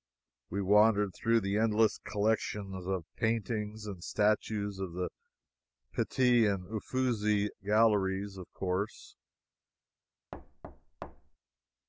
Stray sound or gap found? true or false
true